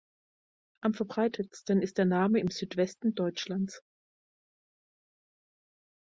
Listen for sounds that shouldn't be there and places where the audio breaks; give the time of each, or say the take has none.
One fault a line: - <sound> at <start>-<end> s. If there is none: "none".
none